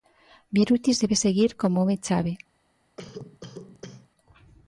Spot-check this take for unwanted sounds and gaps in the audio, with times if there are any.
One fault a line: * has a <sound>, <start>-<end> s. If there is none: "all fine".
* has a cough, 3.0-4.1 s